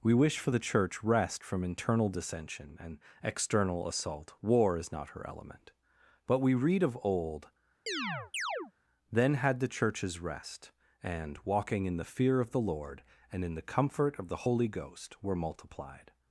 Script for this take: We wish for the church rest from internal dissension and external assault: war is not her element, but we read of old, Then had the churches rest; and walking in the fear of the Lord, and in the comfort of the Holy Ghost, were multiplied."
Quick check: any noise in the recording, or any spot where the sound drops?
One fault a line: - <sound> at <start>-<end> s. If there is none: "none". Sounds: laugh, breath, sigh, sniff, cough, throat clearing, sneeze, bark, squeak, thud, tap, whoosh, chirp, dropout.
- chirp at 7.9-8.7 s